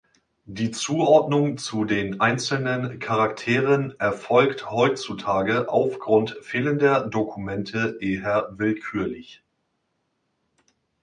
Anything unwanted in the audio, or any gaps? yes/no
no